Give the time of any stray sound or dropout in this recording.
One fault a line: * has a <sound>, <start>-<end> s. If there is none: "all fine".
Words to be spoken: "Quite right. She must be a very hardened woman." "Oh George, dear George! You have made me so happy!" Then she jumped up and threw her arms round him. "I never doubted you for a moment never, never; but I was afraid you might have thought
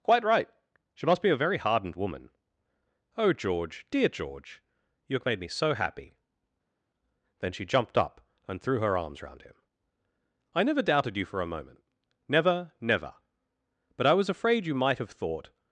all fine